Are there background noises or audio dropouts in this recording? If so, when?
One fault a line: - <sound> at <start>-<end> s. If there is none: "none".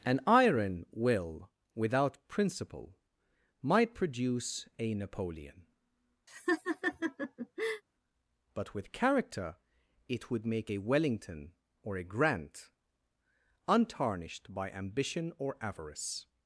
- laugh at 6.3-7.8 s